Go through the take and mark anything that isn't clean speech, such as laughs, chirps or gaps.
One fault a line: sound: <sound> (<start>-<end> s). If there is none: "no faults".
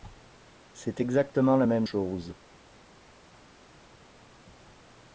no faults